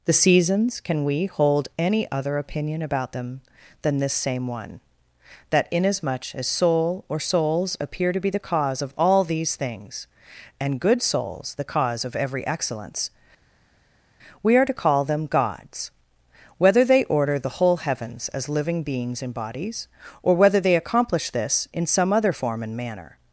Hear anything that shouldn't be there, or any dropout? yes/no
no